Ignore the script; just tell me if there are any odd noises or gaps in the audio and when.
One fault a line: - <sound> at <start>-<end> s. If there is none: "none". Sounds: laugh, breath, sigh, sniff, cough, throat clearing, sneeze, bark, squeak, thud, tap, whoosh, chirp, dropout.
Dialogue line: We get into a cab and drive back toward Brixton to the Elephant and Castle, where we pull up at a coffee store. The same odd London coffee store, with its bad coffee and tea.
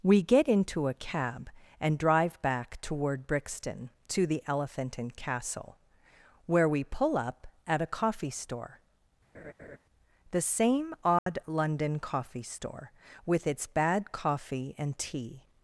- laugh at 9.3-9.8 s
- dropout at 11.2-11.3 s